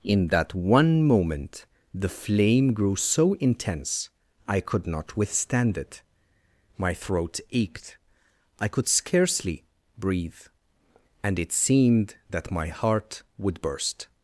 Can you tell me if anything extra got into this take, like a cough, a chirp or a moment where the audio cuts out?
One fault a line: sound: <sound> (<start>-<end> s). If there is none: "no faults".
no faults